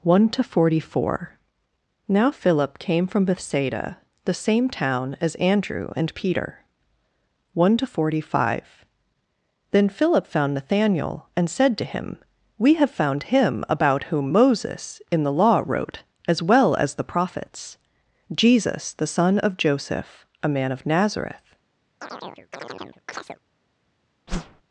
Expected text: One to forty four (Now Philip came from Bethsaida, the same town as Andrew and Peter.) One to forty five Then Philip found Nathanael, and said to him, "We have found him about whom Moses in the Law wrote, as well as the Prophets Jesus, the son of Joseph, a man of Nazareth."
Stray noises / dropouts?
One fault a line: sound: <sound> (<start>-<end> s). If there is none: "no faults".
sound: chirp (22.0-23.4 s)
sound: whoosh (24.3-24.6 s)